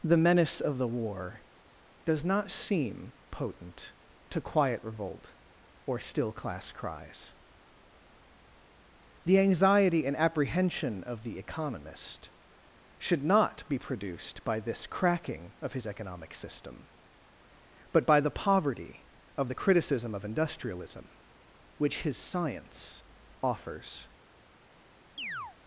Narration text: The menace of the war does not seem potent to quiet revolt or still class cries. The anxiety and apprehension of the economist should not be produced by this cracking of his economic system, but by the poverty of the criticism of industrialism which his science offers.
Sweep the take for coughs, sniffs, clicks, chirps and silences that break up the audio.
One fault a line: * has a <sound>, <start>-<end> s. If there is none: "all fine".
* has a chirp, 25.2-25.6 s